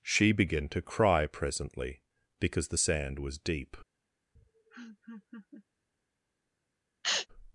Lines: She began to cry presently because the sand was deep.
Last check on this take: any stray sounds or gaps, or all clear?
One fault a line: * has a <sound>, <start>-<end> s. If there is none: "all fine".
* has a laugh, 4.4-5.7 s
* has a sneeze, 7.0-7.3 s